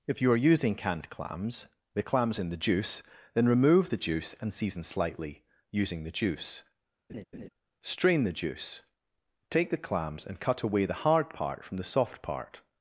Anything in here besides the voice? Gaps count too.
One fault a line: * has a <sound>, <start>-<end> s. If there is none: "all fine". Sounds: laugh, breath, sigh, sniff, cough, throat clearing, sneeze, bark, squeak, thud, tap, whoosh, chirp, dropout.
* has a laugh, 7.1-7.5 s